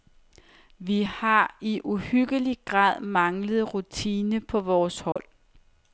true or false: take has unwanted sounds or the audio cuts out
true